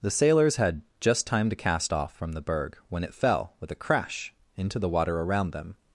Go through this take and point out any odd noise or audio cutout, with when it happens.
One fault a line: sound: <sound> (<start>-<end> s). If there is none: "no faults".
no faults